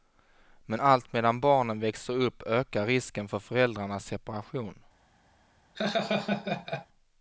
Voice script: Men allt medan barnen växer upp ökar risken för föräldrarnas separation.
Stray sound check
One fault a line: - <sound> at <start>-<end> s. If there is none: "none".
- laugh at 5.7-6.9 s